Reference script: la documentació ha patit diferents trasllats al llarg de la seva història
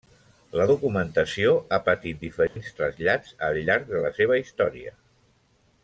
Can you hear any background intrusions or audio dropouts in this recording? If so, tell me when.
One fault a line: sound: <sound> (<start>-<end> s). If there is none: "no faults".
sound: dropout (2.5-2.6 s)